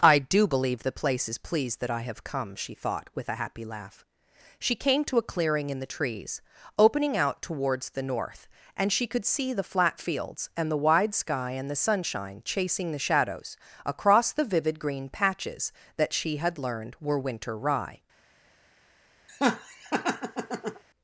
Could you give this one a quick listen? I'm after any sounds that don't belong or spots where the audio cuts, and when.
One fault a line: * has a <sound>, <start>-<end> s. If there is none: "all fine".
* has a laugh, 19.3-20.8 s